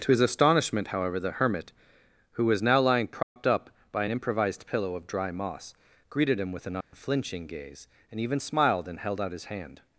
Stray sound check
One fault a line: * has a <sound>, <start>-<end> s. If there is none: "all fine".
* has a dropout, 3.2-3.4 s
* has a dropout, 6.8-6.9 s